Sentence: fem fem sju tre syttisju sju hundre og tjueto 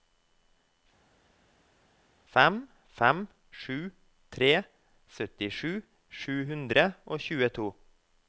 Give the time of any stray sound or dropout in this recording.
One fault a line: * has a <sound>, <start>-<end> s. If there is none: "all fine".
all fine